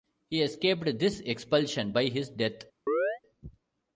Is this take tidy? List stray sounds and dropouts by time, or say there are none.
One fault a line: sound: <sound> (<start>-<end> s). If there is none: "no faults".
sound: chirp (2.9-3.2 s)